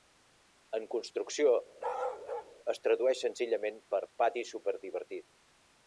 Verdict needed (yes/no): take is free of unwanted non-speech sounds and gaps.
no